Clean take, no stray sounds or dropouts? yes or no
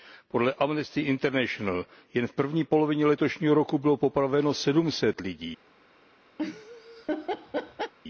no